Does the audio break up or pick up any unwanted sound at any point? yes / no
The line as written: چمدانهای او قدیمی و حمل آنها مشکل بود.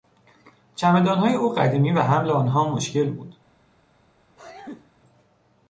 yes